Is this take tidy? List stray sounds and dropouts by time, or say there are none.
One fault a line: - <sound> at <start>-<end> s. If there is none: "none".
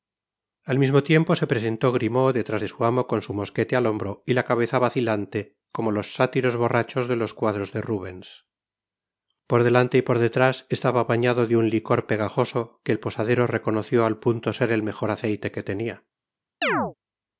- chirp at 16.6-16.9 s